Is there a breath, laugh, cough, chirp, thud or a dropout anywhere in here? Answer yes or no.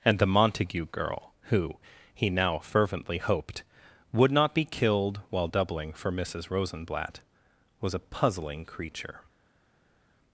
no